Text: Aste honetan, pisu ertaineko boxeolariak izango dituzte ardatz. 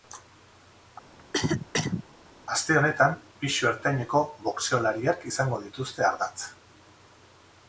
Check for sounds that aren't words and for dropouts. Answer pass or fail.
fail